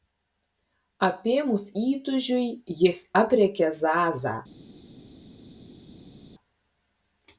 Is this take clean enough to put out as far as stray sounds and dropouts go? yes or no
yes